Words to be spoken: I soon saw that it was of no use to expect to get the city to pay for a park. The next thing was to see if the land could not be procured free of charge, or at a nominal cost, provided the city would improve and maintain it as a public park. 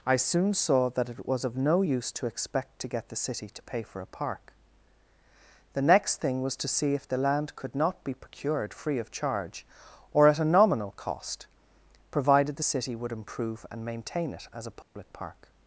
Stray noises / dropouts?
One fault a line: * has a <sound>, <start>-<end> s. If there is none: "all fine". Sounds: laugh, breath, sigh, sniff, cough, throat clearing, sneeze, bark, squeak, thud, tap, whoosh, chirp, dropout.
* has a dropout, 14.8-15.0 s